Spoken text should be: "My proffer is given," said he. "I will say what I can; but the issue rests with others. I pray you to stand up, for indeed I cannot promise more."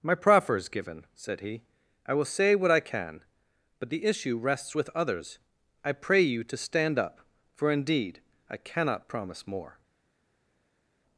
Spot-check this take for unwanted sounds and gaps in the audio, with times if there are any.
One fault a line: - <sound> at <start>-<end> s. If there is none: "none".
none